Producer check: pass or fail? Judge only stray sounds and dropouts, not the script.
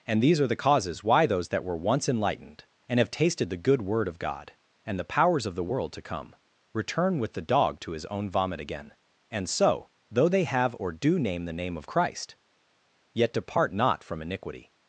pass